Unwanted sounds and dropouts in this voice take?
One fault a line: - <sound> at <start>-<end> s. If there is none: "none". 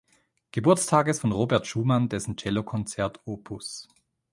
none